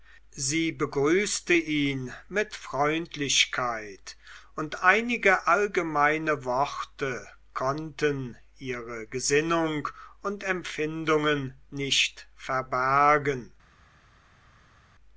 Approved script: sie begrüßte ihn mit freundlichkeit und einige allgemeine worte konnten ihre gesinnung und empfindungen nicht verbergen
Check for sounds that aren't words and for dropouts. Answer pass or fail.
pass